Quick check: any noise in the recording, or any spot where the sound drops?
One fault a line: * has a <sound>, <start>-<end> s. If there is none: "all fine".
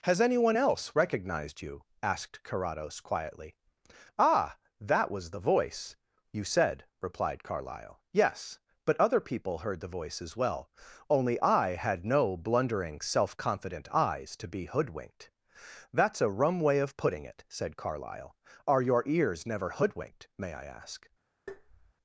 * has a tap, 21.5-21.9 s